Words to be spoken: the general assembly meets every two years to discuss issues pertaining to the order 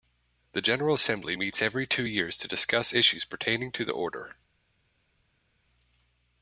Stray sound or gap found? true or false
false